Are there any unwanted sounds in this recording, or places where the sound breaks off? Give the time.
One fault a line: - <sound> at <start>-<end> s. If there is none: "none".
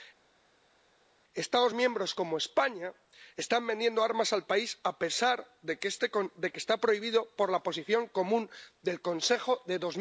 none